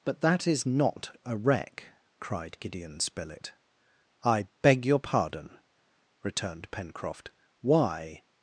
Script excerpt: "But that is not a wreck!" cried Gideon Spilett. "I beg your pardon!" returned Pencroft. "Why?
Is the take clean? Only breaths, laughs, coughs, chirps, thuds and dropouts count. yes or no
yes